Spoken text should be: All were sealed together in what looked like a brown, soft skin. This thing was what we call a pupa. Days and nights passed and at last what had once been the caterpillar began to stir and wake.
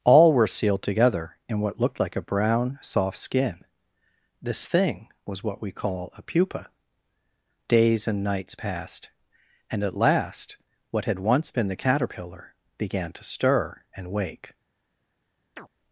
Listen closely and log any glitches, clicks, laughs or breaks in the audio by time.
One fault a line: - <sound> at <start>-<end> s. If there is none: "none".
- chirp at 15.6-15.7 s